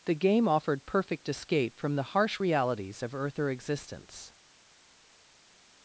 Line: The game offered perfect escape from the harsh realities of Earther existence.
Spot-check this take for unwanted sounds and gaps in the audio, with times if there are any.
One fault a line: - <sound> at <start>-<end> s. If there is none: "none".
none